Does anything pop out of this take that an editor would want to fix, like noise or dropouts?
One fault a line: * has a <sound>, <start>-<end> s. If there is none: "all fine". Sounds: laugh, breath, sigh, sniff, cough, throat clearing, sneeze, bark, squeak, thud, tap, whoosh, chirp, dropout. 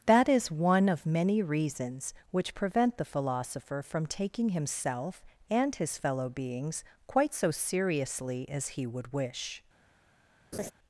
* has a laugh, 10.5-10.7 s